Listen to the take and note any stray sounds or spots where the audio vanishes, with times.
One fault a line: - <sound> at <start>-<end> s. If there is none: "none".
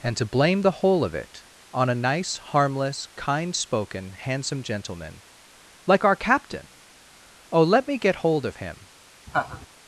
- laugh at 9.3-9.7 s